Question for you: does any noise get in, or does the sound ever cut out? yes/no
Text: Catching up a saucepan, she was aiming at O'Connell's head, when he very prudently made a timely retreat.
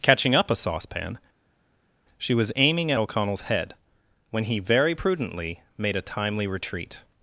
no